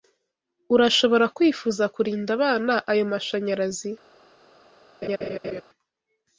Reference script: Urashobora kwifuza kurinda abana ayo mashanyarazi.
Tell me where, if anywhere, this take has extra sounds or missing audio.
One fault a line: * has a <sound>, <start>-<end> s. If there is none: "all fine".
* has a laugh, 5.0-5.6 s